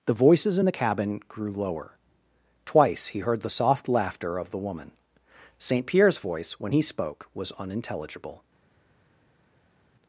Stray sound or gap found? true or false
false